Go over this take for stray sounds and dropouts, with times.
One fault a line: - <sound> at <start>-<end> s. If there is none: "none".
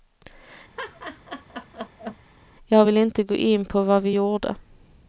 - laugh at 0.8-2.2 s